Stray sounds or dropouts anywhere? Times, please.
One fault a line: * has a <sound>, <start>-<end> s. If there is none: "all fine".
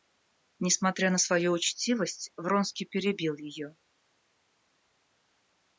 all fine